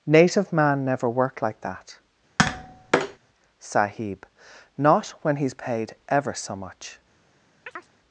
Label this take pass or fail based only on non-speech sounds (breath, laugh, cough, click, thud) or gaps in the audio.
fail